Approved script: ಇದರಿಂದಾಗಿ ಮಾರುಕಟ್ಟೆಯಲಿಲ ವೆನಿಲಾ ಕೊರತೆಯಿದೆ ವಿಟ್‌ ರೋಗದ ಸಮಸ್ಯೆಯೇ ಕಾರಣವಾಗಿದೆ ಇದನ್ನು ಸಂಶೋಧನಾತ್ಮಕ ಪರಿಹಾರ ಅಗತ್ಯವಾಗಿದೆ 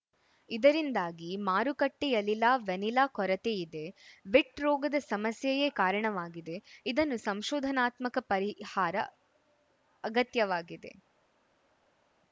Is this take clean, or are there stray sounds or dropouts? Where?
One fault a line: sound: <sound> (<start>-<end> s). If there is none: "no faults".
no faults